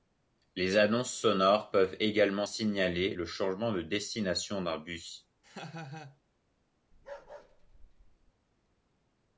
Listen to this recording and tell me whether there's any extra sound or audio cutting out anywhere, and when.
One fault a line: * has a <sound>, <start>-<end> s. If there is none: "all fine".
* has a laugh, 5.4-6.2 s
* has a bark, 6.9-8.3 s